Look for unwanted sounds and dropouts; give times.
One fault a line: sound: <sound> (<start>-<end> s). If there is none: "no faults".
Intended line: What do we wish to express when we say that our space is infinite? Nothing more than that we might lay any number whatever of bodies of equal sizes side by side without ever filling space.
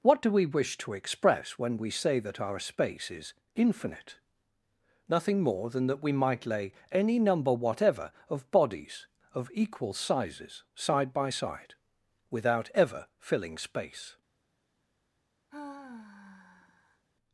sound: sigh (15.5-17.0 s)